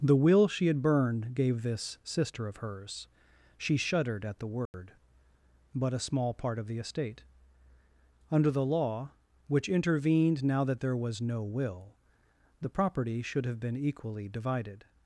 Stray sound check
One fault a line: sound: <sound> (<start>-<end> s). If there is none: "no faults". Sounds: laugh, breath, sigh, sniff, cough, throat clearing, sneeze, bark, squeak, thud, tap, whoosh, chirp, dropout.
sound: dropout (4.7-4.7 s)